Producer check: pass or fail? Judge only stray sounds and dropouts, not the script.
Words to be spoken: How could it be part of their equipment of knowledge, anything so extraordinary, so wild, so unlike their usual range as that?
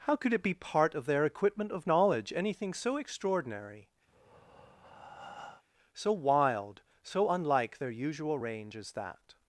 fail